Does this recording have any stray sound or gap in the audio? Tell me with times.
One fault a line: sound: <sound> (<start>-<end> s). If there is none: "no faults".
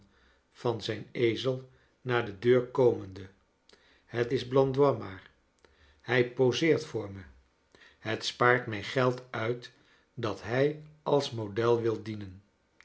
no faults